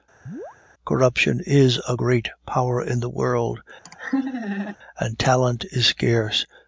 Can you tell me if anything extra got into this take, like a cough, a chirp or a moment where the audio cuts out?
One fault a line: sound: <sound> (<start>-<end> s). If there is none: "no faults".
sound: chirp (0.3-0.6 s)
sound: laugh (3.8-4.8 s)